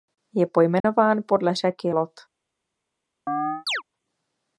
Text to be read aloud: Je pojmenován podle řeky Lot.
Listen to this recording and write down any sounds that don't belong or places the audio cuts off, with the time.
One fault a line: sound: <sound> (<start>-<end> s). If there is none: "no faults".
sound: dropout (0.8-0.8 s)
sound: chirp (3.3-3.8 s)